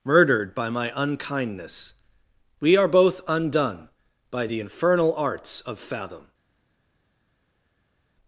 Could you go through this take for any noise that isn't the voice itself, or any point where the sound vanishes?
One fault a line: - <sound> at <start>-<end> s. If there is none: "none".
none